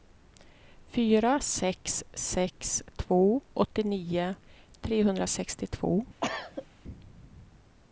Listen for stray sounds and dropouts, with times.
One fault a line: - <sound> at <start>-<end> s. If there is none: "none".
- cough at 6.2-6.7 s